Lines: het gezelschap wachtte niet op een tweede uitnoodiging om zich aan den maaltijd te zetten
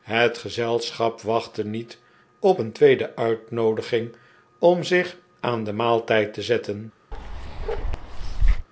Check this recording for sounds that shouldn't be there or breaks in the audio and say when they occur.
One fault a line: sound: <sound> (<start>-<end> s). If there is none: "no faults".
sound: bark (7.1-8.7 s)